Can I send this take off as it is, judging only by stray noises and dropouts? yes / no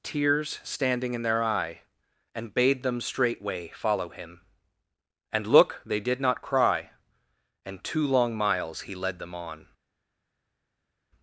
yes